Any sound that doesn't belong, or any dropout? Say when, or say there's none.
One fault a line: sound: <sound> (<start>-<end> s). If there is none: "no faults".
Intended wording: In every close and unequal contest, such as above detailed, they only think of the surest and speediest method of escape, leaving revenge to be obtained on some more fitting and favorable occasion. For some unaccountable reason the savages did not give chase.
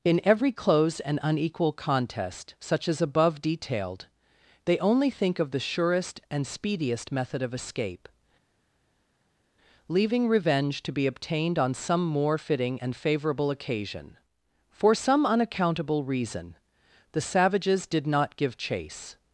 no faults